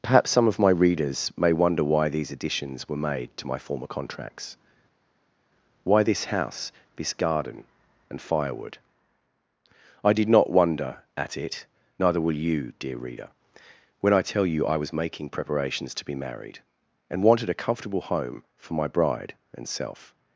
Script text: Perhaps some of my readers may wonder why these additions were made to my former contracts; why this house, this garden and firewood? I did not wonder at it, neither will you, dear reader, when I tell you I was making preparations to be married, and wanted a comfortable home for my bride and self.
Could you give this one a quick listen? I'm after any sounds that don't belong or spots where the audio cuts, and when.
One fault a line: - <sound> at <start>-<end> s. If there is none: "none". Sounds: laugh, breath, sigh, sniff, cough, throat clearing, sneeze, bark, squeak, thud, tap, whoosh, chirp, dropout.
none